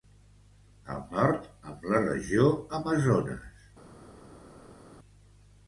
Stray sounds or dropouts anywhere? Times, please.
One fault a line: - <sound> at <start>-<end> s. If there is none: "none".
none